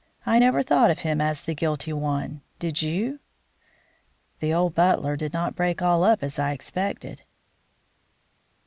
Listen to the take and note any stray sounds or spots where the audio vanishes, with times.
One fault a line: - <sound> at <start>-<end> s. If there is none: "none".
none